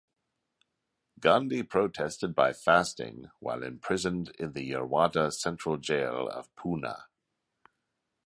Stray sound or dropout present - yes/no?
no